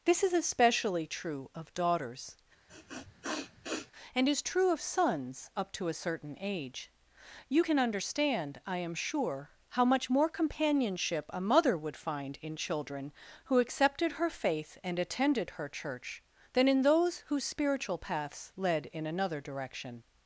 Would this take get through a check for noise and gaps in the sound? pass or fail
fail